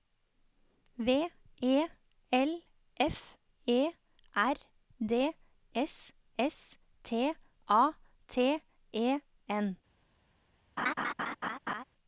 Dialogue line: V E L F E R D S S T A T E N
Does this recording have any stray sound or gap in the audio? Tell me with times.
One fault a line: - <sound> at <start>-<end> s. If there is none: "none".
- laugh at 10.8-11.8 s